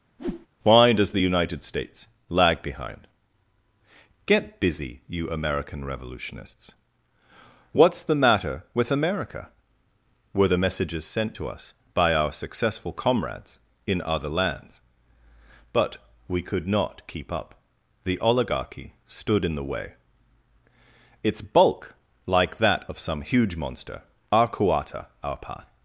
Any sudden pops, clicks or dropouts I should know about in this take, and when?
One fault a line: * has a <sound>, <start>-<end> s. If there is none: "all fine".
* has a whoosh, 0.2-0.5 s